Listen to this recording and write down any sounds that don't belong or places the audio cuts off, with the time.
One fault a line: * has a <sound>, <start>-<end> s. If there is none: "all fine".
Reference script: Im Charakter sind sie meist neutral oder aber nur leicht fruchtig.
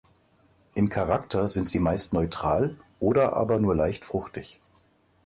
all fine